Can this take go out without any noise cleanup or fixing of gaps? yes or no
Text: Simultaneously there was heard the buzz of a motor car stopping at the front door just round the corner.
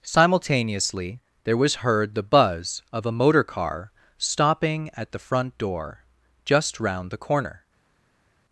yes